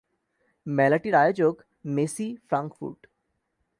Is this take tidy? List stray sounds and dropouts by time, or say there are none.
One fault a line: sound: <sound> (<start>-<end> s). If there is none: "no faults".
no faults